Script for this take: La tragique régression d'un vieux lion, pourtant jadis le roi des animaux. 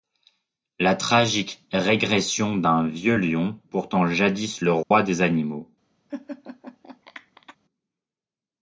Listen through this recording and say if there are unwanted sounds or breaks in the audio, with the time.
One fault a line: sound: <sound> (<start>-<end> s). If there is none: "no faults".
sound: dropout (4.8-4.9 s)
sound: laugh (6.1-7.6 s)